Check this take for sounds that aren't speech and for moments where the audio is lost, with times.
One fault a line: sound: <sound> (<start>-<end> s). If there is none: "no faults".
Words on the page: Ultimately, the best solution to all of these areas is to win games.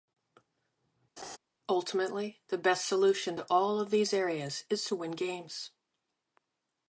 sound: laugh (1.2-1.4 s)